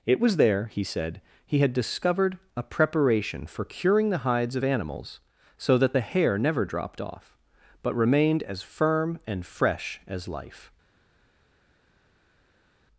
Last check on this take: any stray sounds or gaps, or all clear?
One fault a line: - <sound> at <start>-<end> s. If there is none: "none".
none